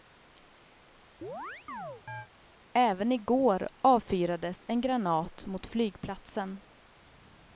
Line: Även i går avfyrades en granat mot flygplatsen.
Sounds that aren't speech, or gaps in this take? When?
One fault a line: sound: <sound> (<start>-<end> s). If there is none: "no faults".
sound: chirp (1.2-2.3 s)